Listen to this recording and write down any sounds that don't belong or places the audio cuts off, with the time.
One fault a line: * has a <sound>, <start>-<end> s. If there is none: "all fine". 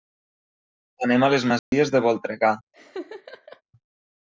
* has a dropout, 1.6-1.7 s
* has a laugh, 2.7-3.6 s